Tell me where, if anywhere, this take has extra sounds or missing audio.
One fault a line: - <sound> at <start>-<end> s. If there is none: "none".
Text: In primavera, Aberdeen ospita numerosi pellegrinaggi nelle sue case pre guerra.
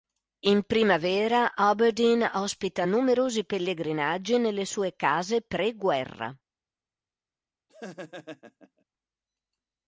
- laugh at 7.7-8.8 s